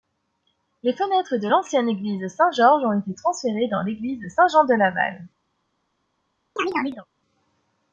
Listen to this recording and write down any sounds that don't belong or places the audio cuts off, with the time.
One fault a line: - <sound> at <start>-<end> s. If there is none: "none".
- chirp at 6.6-7.1 s